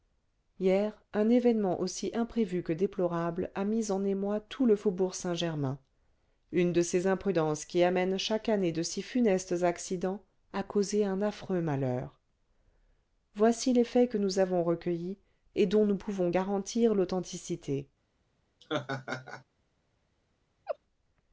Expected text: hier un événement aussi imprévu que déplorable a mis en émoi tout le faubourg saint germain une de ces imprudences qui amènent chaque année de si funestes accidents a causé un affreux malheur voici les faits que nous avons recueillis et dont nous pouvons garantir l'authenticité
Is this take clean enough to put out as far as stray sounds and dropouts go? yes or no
no